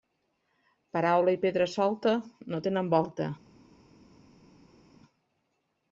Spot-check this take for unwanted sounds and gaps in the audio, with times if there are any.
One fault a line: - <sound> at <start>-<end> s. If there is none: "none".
none